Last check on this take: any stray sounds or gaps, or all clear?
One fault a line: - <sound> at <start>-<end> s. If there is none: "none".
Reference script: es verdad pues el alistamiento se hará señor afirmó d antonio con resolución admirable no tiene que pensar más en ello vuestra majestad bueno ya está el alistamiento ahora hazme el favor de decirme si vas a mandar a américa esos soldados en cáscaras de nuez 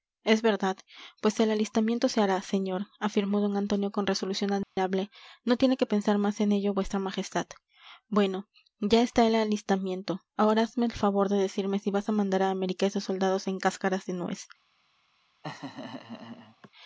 - dropout at 4.6-4.8 s
- laugh at 15.4-16.7 s